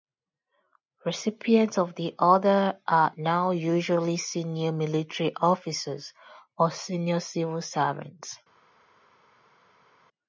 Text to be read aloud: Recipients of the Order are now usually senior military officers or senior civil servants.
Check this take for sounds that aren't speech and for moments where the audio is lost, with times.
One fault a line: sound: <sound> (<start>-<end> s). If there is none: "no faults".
no faults